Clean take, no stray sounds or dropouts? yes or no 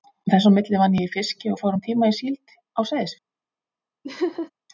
no